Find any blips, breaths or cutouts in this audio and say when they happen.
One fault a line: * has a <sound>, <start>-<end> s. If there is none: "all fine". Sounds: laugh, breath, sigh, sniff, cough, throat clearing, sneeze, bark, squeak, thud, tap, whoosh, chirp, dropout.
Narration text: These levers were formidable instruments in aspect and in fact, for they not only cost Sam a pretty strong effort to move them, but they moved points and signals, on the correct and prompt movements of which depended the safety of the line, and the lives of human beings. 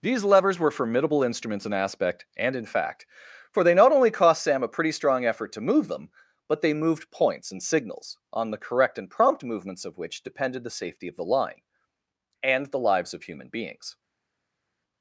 all fine